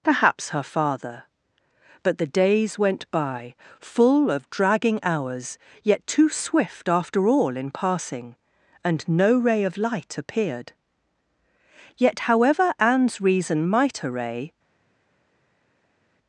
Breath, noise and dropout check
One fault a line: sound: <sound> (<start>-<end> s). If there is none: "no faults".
no faults